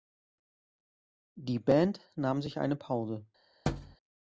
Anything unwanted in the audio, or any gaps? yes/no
yes